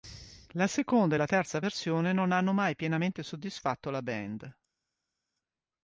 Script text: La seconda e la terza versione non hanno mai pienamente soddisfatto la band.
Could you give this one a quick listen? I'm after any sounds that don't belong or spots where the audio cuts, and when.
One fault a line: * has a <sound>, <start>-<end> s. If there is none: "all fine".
all fine